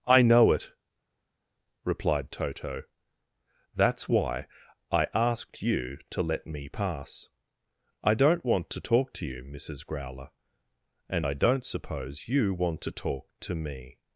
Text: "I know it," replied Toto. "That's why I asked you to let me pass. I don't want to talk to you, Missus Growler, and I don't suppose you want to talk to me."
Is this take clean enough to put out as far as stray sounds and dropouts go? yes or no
yes